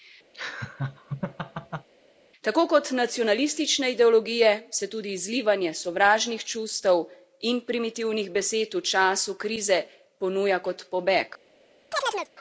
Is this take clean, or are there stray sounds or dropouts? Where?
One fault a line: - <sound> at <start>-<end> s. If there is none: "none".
- laugh at 0.3-1.9 s
- chirp at 11.9-12.3 s